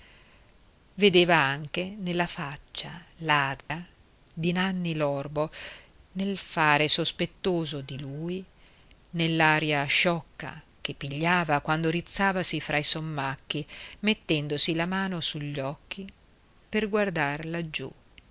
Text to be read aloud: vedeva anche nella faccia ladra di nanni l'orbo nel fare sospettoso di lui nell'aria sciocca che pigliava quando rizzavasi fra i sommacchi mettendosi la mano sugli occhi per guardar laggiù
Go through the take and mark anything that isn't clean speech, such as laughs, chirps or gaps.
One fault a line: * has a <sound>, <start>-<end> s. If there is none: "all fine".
* has a dropout, 3.6-3.7 s